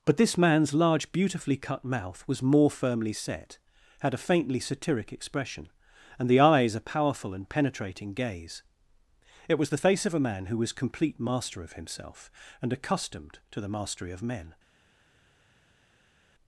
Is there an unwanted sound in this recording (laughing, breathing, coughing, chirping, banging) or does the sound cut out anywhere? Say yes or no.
no